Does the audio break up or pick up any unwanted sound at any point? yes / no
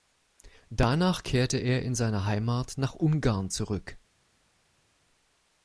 no